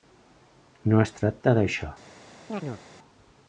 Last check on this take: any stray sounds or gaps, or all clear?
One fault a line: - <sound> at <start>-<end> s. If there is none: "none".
- chirp at 2.5-2.8 s